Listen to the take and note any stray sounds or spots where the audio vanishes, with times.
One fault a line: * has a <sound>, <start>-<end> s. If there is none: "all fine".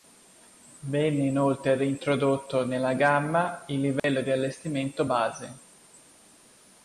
* has a dropout, 4.0-4.0 s